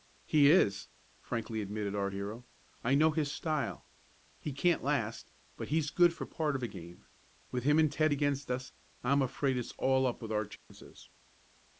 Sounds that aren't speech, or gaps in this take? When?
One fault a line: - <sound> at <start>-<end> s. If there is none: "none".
- dropout at 10.6-10.7 s